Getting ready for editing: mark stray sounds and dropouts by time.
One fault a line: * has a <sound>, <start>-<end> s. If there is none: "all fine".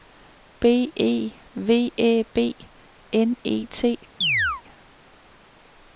* has a chirp, 4.2-4.6 s